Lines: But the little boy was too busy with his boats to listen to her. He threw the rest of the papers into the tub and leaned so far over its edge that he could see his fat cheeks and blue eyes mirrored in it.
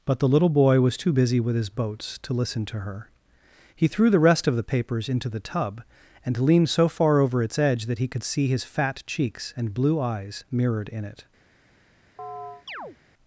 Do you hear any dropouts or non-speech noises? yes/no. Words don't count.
yes